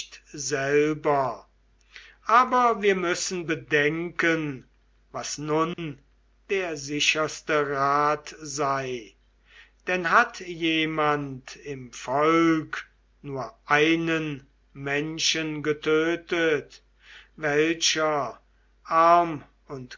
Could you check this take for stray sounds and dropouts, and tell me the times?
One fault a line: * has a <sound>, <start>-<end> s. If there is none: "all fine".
* has a dropout, 5.7-5.8 s